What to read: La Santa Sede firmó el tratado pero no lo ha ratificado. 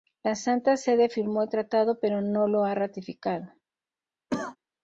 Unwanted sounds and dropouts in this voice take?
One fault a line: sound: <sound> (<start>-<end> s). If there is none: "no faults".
sound: cough (4.3-4.6 s)